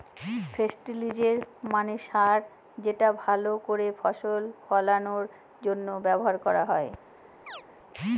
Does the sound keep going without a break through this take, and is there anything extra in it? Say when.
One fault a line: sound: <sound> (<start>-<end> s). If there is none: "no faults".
sound: chirp (7.5-7.6 s)